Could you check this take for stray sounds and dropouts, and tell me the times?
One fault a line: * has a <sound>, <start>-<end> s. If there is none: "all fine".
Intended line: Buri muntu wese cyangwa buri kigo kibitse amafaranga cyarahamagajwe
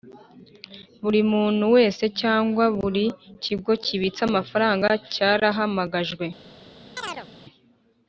* has a chirp, 7.0-7.3 s